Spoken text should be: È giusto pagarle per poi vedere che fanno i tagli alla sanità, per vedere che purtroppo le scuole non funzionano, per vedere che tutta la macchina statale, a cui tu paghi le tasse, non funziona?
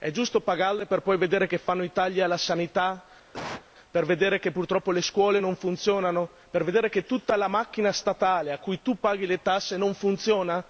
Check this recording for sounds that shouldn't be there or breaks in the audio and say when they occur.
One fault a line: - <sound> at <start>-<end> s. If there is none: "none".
- cough at 3.3-3.7 s